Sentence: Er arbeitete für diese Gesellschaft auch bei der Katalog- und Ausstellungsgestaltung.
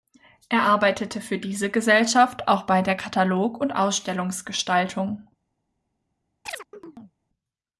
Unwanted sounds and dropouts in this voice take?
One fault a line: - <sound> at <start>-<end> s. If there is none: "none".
- chirp at 6.5-7.2 s